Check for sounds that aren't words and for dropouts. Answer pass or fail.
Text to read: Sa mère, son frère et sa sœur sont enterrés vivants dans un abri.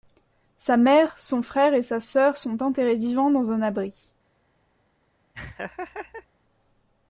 fail